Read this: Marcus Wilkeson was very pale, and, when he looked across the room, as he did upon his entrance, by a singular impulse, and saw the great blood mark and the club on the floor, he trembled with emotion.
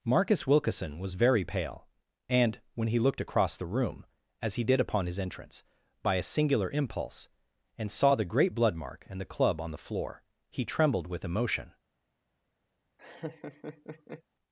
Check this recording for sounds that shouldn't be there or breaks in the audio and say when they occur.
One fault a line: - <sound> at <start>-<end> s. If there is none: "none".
- laugh at 13.0-14.2 s